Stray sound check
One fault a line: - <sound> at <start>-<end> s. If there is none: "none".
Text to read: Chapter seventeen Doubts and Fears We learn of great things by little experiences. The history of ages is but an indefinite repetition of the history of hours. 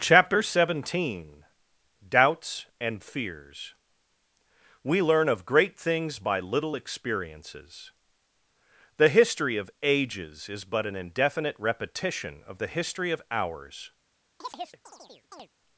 - chirp at 14.4-15.5 s